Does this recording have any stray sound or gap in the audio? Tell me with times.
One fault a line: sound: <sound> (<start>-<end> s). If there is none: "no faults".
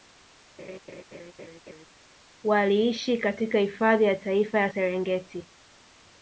sound: laugh (0.6-1.9 s)